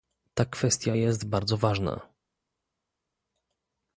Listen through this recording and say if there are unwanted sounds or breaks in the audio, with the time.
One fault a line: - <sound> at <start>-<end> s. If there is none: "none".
none